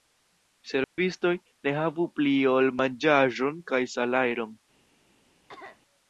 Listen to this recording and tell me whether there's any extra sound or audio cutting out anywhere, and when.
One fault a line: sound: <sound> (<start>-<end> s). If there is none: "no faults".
sound: dropout (0.8-1.0 s)
sound: cough (5.5-5.8 s)